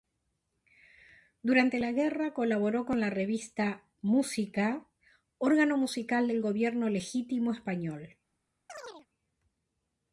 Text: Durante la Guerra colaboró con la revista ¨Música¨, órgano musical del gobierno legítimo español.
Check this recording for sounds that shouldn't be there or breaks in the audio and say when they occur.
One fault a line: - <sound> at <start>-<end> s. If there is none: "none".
- chirp at 8.7-9.1 s